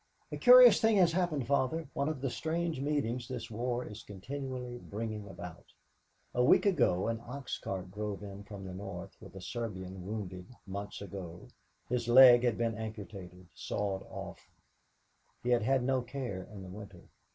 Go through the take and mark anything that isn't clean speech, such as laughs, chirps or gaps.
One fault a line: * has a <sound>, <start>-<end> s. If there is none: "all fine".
all fine